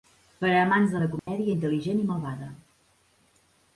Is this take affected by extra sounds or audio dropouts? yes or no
yes